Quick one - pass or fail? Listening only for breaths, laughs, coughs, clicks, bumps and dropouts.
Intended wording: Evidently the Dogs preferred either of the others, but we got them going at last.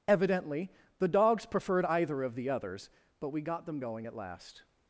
pass